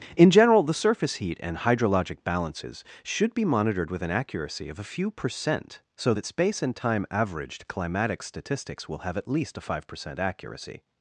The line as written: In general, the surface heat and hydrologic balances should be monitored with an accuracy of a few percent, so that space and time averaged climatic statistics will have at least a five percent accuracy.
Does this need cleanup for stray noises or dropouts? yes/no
no